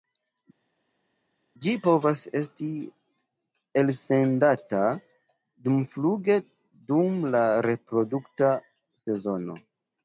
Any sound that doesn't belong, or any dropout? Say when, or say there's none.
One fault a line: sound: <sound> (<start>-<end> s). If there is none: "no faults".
no faults